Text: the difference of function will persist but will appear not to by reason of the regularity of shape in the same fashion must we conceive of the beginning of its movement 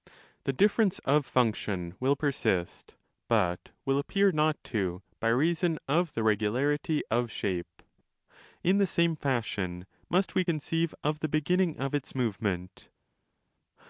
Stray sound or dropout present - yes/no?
no